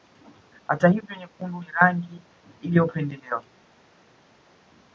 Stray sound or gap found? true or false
false